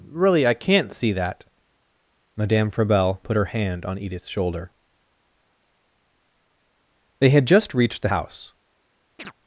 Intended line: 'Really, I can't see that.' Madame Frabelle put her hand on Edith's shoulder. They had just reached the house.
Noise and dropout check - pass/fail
fail